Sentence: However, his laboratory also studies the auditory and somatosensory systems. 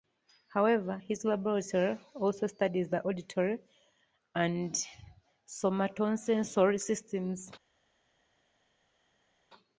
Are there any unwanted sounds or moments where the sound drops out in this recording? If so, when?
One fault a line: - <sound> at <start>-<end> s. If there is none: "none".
none